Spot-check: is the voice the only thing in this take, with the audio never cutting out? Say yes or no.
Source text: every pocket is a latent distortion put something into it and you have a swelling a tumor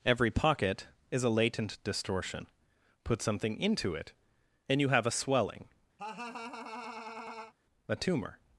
no